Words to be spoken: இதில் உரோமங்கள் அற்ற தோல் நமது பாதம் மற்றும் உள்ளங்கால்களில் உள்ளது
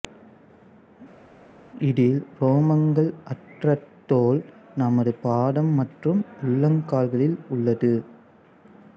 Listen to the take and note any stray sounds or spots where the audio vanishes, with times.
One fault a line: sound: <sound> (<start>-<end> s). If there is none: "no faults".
no faults